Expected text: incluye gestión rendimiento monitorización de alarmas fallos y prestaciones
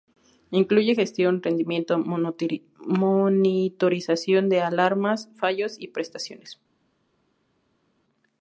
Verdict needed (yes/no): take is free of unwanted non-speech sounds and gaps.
yes